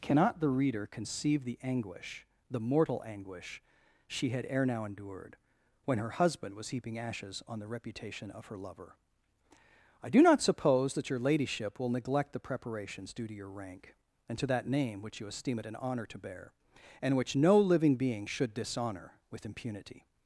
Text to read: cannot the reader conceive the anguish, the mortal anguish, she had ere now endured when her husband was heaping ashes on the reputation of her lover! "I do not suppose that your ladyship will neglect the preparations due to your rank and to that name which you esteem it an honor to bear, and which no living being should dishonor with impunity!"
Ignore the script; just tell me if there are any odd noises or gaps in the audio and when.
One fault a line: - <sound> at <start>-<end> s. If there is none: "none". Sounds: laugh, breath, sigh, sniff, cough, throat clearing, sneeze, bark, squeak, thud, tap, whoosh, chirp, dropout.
none